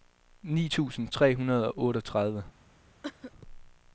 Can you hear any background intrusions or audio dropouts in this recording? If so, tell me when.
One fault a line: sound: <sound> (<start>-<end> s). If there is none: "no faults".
sound: cough (3.0-3.3 s)